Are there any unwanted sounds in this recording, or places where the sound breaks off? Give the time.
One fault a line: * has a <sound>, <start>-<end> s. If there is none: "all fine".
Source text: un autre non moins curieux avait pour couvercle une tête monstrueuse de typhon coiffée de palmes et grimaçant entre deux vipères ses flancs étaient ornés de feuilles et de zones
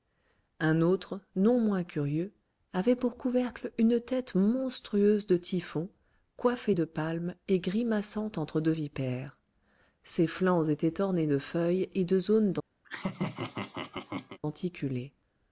* has a laugh, 12.8-14.4 s